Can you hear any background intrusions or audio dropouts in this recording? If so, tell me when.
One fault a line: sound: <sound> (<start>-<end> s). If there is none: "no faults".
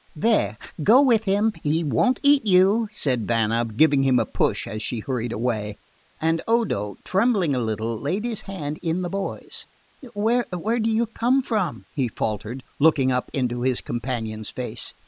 no faults